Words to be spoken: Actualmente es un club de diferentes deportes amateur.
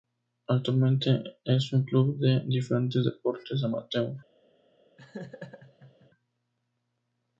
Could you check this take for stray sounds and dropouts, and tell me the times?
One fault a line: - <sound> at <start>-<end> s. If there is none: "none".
- laugh at 5.0-6.1 s